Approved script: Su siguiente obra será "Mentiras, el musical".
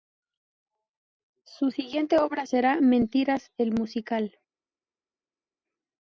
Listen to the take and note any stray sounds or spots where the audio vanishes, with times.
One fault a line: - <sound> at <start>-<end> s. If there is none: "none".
none